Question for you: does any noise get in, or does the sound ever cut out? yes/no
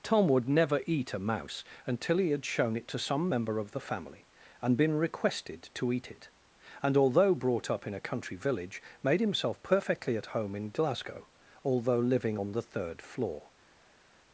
no